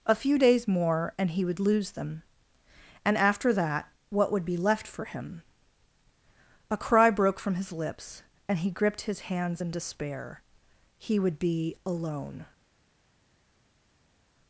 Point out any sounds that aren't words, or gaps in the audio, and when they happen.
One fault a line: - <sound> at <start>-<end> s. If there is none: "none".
none